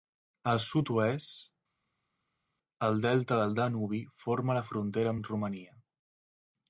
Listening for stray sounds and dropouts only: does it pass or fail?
pass